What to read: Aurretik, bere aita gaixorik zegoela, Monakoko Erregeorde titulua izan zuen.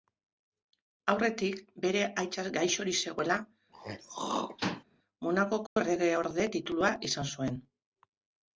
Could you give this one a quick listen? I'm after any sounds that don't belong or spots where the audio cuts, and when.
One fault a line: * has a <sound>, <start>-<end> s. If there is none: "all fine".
* has a throat clearing, 3.7-4.8 s
* has a dropout, 5.7-5.8 s